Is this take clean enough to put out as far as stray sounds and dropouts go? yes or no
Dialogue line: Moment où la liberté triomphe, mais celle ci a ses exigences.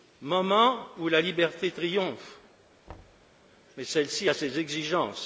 no